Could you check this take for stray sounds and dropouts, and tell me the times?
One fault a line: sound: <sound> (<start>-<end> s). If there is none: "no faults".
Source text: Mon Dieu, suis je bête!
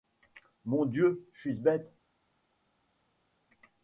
no faults